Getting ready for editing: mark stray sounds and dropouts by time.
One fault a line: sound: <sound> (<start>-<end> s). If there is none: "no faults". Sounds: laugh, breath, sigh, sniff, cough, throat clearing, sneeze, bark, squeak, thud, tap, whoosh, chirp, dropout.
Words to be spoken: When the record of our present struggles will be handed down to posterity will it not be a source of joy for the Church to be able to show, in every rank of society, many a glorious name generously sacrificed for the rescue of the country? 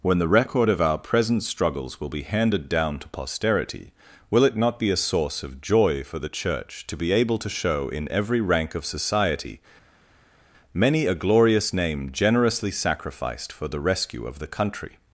no faults